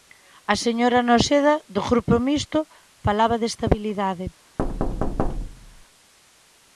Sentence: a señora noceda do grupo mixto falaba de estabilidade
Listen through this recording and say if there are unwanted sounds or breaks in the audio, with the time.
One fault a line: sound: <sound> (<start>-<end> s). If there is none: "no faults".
sound: thud (4.6-5.9 s)